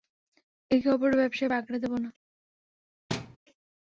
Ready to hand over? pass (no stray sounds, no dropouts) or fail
fail